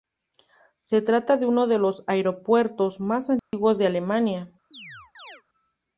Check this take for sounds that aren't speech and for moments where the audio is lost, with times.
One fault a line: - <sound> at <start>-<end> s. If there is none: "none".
- dropout at 3.4-3.5 s
- chirp at 4.7-5.4 s